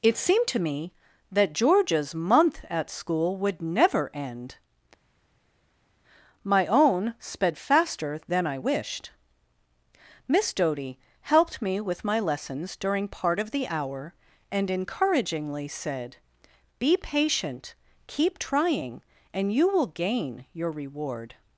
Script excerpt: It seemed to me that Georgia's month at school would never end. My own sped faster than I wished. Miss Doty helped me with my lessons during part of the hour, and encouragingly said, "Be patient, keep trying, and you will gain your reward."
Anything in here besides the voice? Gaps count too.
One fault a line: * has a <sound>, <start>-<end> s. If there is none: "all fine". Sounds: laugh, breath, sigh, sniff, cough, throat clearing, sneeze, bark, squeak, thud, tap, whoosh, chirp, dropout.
all fine